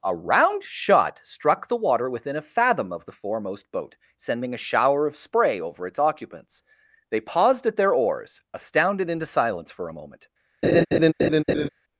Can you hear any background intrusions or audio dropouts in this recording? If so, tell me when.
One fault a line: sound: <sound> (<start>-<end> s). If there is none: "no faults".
sound: laugh (10.6-11.7 s)